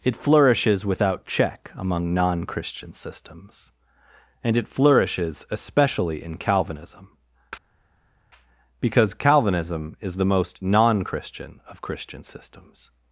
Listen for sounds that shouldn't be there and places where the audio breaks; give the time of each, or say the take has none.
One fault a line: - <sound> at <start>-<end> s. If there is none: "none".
none